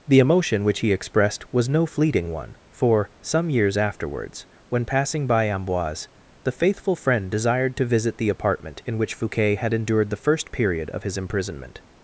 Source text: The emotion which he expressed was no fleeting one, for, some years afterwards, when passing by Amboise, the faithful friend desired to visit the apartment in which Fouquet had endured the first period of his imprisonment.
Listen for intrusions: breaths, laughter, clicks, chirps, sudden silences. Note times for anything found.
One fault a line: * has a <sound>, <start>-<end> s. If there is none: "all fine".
all fine